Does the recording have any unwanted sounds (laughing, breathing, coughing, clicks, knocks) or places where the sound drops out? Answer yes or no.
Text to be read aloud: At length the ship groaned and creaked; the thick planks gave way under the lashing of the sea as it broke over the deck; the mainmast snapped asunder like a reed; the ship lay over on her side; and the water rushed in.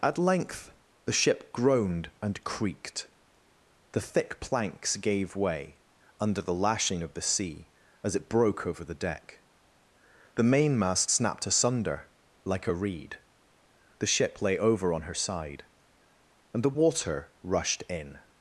no